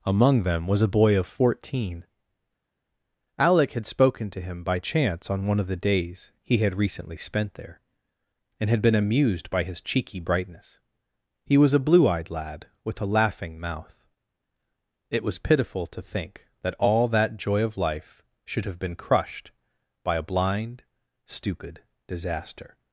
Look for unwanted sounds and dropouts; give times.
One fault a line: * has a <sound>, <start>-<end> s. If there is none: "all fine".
all fine